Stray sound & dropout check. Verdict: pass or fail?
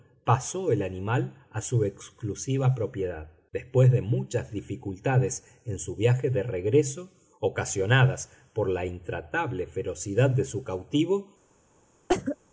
fail